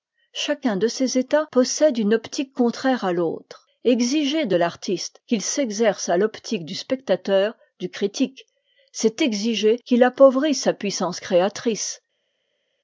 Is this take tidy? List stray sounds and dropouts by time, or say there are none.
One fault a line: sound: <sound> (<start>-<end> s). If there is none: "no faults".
no faults